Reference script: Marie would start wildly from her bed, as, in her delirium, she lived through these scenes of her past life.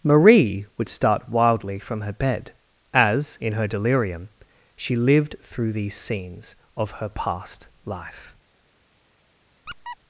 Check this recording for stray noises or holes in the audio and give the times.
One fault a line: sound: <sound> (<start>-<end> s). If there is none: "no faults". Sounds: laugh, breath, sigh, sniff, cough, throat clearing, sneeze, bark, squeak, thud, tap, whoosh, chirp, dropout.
sound: squeak (9.7-10.0 s)